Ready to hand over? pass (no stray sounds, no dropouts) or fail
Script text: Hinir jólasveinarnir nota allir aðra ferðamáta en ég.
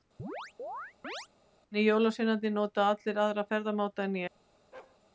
fail